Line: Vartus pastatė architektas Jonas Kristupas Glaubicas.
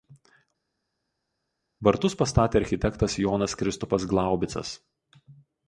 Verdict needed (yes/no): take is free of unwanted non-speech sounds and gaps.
yes